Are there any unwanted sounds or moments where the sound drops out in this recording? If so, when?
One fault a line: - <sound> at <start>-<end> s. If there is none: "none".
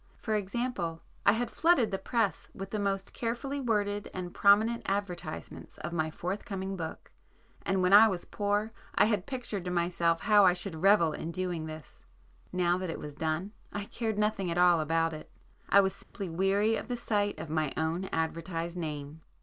- dropout at 16.0-16.1 s